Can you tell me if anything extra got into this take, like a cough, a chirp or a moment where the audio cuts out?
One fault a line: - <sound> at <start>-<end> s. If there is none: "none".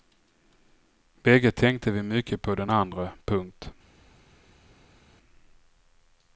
none